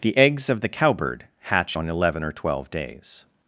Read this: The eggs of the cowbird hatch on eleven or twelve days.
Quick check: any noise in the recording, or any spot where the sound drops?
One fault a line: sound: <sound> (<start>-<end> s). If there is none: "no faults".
no faults